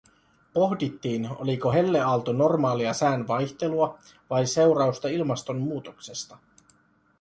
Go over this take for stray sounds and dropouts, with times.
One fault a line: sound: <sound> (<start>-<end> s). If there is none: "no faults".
no faults